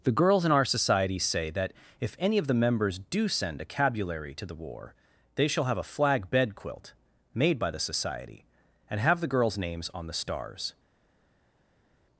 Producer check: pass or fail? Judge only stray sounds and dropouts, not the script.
pass